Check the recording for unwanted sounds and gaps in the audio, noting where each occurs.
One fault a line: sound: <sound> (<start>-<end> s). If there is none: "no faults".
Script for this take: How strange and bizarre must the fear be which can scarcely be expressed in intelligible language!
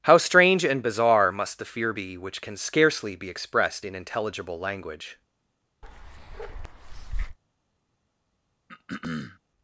sound: bark (5.8-7.4 s)
sound: throat clearing (8.7-9.4 s)